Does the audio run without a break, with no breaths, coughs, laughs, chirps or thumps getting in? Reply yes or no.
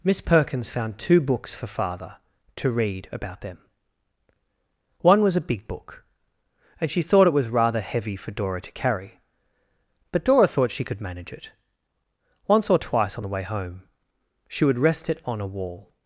yes